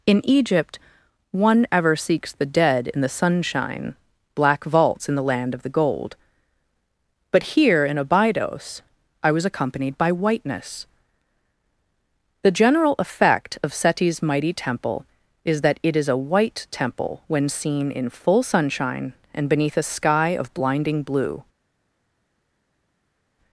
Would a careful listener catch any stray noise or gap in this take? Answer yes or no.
no